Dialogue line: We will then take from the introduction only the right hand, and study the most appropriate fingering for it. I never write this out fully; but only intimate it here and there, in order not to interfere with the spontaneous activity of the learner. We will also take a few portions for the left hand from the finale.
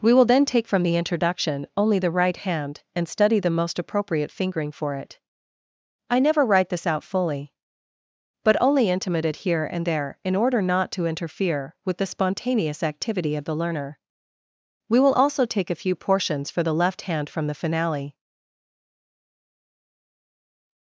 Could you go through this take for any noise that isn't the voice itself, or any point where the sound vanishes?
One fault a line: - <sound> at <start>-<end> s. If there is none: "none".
none